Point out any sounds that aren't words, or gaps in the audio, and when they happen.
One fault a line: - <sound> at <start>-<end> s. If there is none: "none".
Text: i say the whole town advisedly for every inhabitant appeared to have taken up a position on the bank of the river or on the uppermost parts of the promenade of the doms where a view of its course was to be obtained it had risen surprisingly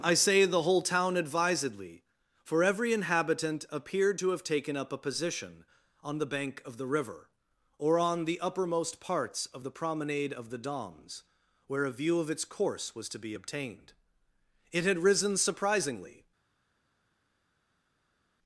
none